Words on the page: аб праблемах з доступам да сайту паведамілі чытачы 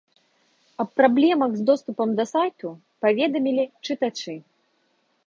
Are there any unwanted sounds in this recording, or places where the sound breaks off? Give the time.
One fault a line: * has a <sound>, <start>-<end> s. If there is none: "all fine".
all fine